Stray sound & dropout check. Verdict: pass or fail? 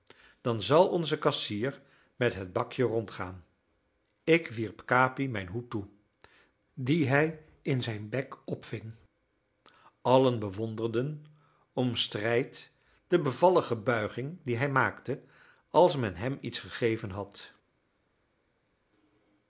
pass